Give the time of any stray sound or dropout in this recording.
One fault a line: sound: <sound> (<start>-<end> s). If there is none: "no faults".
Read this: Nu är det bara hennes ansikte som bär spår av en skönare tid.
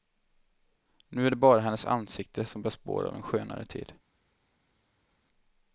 no faults